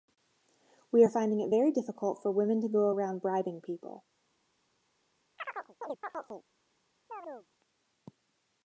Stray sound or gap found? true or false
true